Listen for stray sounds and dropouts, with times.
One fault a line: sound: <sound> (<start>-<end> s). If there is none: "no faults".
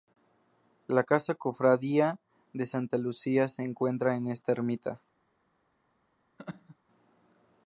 sound: laugh (6.4-6.8 s)